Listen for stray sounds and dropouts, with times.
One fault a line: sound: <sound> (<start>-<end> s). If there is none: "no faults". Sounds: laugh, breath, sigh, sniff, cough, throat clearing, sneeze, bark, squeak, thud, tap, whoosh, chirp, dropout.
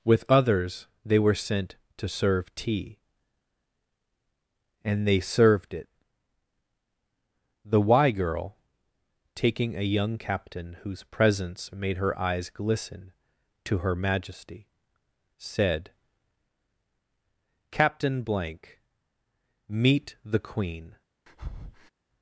sound: breath (21.3-21.9 s)